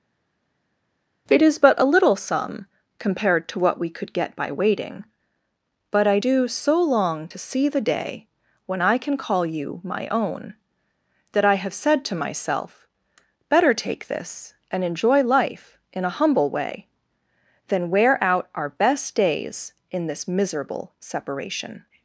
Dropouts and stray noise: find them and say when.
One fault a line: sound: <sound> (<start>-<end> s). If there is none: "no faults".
no faults